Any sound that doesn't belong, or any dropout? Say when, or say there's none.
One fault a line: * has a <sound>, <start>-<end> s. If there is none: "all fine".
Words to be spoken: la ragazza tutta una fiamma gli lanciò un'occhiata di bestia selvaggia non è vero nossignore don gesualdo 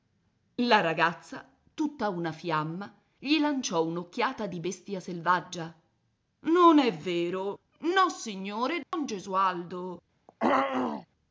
* has a dropout, 8.8-8.9 s
* has a throat clearing, 10.3-11.1 s